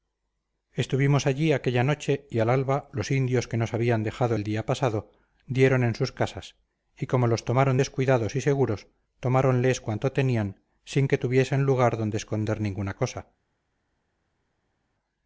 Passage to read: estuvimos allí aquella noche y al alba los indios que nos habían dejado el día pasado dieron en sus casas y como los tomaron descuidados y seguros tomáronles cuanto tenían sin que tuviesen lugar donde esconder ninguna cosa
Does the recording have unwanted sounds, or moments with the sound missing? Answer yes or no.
no